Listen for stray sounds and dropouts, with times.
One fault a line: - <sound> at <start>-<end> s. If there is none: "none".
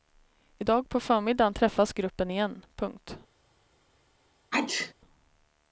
- sneeze at 4.5-4.9 s